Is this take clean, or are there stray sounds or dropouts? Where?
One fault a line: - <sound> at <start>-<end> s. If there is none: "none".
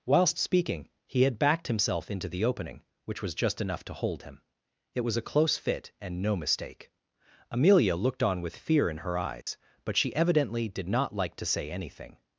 - dropout at 9.4-9.5 s